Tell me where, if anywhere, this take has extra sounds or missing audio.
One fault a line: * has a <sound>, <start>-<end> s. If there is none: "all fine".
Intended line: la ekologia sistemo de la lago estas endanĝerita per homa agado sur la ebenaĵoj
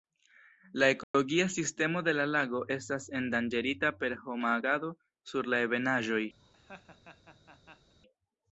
* has a dropout, 1.0-1.1 s
* has a laugh, 6.4-7.9 s